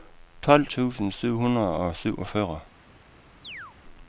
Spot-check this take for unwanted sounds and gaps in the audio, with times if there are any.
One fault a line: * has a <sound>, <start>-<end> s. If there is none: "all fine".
* has a chirp, 3.4-3.8 s